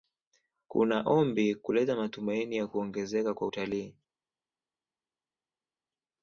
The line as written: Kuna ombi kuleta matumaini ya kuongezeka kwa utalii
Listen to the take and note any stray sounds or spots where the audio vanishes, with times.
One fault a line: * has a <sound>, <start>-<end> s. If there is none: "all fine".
all fine